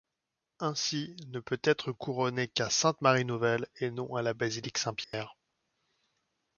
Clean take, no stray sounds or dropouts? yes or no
no